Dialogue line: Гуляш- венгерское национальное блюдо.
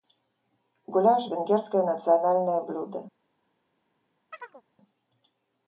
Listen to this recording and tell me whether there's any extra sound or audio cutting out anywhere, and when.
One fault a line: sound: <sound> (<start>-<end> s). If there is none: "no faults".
sound: chirp (4.3-4.6 s)